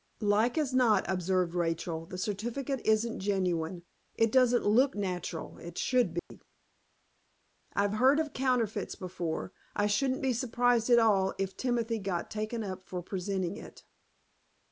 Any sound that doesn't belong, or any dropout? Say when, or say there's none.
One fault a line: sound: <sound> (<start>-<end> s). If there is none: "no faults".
sound: dropout (6.2-6.3 s)